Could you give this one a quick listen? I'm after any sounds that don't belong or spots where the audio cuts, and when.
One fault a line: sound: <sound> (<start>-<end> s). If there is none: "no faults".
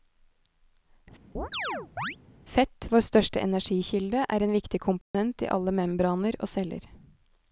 sound: chirp (1.3-2.2 s)
sound: dropout (5.0-5.1 s)